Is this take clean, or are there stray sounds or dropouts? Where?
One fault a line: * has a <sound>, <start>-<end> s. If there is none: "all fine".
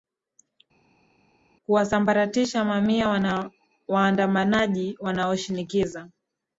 all fine